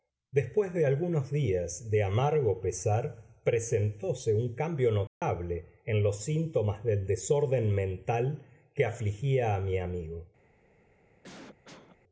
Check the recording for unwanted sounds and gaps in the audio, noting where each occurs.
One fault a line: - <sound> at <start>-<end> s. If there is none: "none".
- dropout at 5.1-5.2 s
- cough at 11.2-12.0 s